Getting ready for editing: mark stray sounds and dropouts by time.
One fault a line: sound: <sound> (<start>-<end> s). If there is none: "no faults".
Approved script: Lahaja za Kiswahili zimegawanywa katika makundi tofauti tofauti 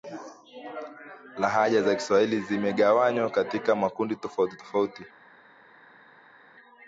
no faults